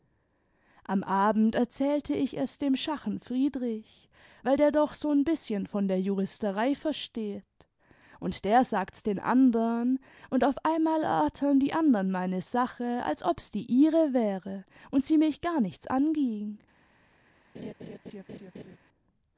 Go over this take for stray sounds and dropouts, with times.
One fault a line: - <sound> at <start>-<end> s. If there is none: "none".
- laugh at 17.5-18.8 s